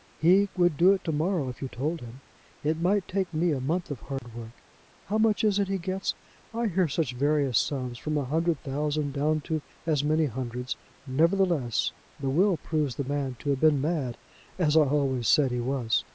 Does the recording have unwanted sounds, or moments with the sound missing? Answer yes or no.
yes